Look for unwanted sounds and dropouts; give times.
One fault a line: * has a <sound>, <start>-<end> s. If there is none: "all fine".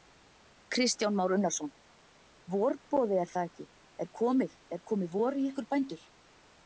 all fine